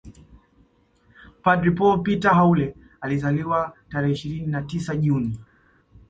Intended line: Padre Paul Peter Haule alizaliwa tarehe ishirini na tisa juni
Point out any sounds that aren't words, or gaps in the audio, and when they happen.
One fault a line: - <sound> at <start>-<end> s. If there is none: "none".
none